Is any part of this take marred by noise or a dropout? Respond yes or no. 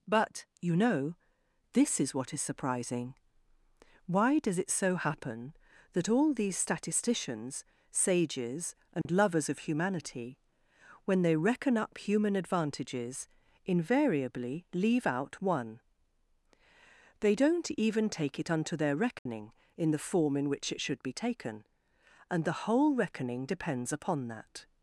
yes